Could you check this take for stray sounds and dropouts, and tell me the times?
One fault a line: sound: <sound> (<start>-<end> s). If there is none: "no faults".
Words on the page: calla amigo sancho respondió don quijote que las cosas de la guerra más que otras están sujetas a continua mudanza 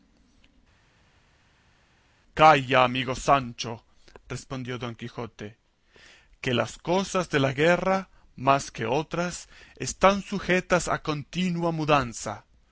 no faults